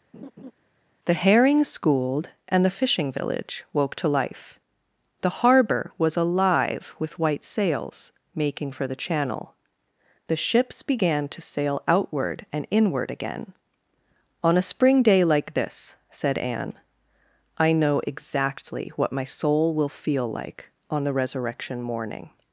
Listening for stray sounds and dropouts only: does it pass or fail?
fail